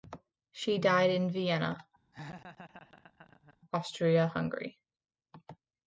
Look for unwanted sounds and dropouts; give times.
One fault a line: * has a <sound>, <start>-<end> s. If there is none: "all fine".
* has a laugh, 2.1-3.6 s